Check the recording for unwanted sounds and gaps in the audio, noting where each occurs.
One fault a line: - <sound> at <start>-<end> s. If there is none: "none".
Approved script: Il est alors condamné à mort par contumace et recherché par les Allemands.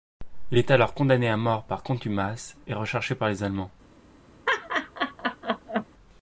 - laugh at 4.5-5.9 s